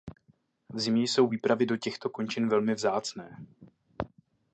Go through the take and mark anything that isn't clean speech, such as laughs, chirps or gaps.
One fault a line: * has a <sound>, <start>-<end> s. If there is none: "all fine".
all fine